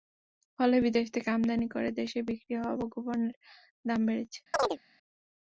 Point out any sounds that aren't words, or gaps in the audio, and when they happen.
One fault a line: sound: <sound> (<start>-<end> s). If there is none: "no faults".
sound: chirp (4.5-4.8 s)